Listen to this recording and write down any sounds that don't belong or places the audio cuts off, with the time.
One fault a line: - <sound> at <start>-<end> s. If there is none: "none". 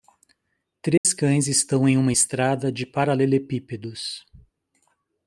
- dropout at 1.0-1.0 s